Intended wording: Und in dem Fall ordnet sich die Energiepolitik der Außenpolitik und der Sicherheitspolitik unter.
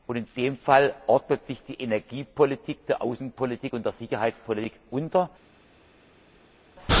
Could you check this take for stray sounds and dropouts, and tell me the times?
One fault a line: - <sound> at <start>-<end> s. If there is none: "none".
none